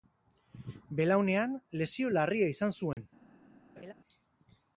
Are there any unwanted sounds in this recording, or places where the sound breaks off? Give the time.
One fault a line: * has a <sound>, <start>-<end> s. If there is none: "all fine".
* has a dropout, 2.9-3.0 s
* has a laugh, 3.8-3.9 s